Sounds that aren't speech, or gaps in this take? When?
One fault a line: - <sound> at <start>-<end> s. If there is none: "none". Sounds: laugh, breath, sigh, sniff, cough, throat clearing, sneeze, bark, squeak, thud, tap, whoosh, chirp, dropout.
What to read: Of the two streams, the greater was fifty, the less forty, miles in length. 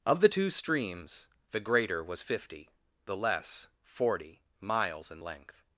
none